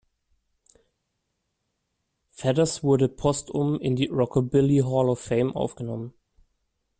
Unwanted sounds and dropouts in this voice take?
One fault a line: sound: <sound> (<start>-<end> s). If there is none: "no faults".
no faults